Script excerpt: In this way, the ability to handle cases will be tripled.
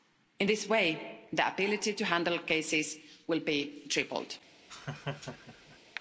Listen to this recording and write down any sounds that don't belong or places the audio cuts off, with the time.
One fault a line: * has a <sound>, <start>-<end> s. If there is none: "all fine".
* has a laugh, 4.7-5.8 s